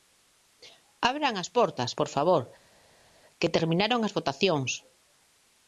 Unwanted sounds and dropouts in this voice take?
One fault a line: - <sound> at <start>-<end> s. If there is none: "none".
none